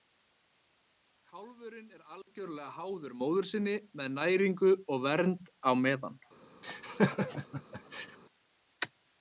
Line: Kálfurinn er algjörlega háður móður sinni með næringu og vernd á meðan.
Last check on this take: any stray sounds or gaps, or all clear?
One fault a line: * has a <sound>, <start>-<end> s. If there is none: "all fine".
* has a laugh, 6.6-8.2 s